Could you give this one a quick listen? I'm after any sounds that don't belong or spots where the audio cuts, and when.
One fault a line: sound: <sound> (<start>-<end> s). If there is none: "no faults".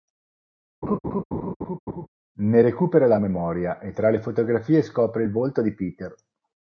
sound: laugh (0.8-2.1 s)